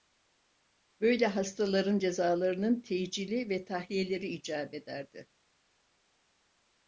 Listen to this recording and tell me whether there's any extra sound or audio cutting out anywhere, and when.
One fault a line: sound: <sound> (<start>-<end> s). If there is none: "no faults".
no faults